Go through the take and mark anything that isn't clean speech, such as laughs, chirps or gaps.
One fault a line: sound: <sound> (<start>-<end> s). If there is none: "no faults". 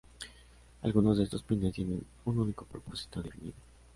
no faults